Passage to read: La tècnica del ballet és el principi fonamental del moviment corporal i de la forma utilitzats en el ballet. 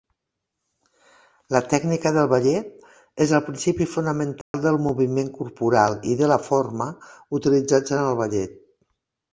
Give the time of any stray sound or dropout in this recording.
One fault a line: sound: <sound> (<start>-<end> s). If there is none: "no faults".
sound: dropout (4.4-4.5 s)